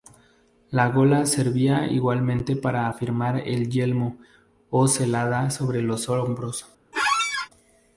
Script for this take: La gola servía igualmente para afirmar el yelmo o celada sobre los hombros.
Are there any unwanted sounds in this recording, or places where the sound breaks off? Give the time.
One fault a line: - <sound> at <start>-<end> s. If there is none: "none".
- squeak at 6.9-7.5 s